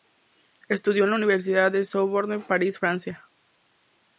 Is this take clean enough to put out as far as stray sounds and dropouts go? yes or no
yes